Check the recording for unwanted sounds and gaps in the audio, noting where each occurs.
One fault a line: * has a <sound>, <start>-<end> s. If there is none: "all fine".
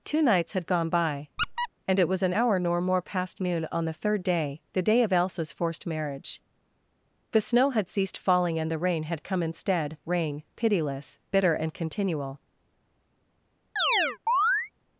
* has a squeak, 1.4-1.7 s
* has a chirp, 13.8-14.7 s